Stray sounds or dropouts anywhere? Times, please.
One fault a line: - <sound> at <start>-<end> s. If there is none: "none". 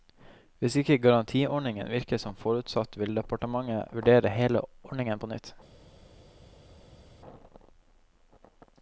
none